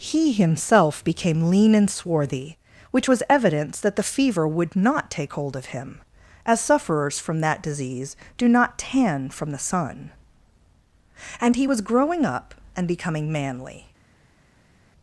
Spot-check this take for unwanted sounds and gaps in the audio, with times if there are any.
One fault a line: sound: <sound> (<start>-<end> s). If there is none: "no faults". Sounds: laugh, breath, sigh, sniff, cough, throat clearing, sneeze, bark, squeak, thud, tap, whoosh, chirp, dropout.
no faults